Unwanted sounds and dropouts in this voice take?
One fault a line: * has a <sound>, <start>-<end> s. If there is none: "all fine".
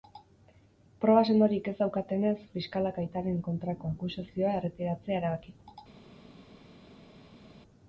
all fine